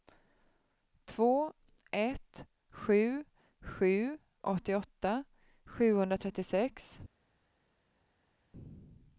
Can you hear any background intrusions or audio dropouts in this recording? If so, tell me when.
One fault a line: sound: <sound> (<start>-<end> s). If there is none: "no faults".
no faults